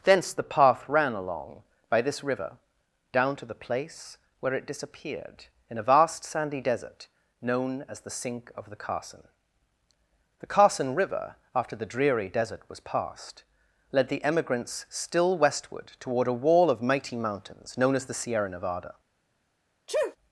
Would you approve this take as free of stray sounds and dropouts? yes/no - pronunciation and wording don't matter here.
no